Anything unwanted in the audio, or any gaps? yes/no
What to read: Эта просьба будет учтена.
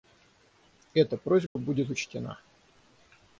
yes